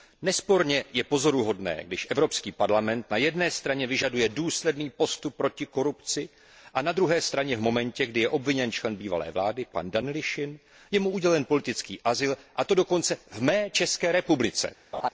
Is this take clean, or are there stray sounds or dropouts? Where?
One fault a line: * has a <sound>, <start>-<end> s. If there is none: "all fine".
* has a laugh, 14.9-15.1 s